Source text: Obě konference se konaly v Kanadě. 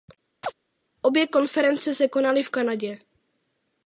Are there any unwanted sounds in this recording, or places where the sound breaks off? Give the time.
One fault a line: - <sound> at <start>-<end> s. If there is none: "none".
- chirp at 0.4-0.5 s